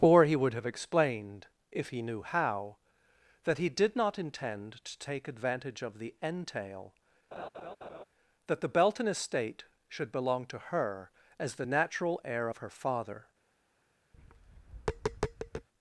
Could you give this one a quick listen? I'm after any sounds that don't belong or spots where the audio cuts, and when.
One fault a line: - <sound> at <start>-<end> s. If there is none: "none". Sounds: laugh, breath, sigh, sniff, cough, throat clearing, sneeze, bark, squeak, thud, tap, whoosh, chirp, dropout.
- laugh at 7.3-8.0 s
- tap at 14.1-15.7 s